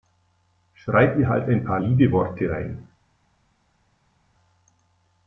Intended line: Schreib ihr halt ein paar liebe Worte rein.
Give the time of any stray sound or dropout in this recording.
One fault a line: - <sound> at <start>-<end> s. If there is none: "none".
none